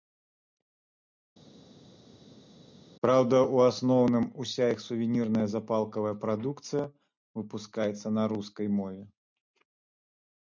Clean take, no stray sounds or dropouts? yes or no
yes